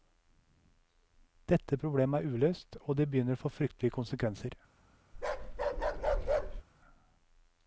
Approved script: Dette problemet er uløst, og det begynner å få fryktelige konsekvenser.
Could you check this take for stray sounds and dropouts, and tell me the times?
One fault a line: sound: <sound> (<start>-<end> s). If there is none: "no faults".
sound: bark (5.1-6.6 s)